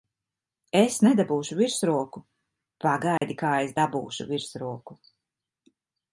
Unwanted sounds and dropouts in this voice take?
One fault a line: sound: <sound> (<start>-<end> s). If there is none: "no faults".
sound: dropout (3.2-3.2 s)